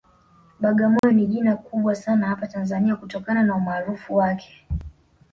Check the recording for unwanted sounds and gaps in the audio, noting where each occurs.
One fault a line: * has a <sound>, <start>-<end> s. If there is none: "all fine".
* has a dropout, 1.0-1.0 s